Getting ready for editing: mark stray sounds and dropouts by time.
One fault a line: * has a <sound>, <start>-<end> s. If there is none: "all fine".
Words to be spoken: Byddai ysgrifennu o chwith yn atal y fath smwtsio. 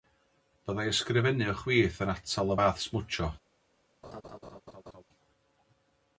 * has a laugh, 4.0-5.0 s